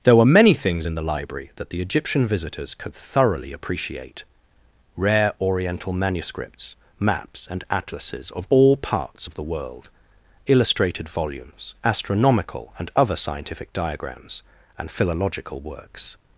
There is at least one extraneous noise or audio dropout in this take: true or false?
false